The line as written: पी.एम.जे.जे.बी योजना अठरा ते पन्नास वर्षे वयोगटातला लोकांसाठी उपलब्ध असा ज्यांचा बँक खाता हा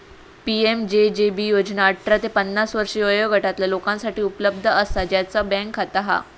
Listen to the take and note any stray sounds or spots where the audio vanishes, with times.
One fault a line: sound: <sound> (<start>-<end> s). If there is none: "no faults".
no faults